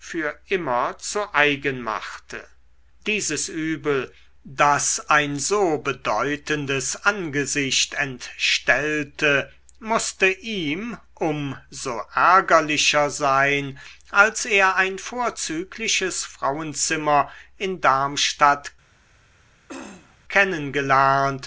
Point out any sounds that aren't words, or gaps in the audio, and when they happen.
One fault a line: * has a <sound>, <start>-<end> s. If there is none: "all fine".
* has a throat clearing, 19.7-20.2 s